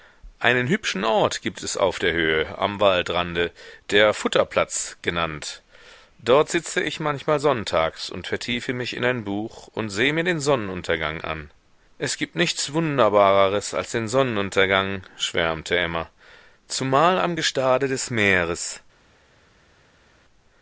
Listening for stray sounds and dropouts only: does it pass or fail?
pass